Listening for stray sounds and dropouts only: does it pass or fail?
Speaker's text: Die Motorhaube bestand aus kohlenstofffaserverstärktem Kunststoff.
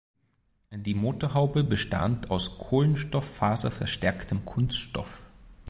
pass